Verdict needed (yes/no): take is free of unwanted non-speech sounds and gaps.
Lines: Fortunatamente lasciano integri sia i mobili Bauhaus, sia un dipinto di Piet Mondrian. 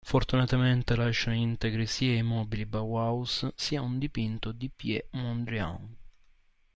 yes